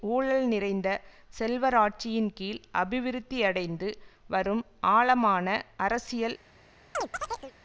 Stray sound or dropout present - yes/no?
yes